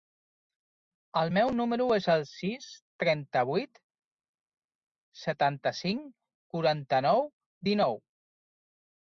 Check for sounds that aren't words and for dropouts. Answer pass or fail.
pass